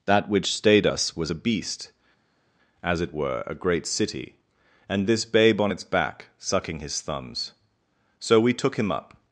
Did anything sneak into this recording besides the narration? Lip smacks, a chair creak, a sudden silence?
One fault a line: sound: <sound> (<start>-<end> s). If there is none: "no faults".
no faults